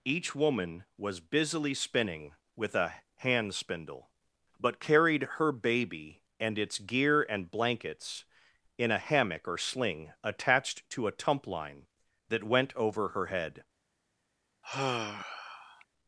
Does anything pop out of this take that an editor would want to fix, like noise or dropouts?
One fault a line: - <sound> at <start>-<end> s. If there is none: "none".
- sigh at 14.6-15.8 s